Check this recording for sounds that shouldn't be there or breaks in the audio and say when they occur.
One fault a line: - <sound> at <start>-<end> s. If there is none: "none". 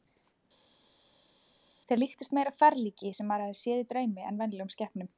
none